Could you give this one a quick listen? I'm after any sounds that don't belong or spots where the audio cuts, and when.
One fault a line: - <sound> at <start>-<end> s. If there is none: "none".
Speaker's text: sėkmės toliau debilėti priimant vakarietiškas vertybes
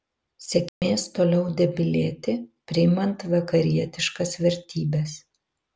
- dropout at 0.7-0.8 s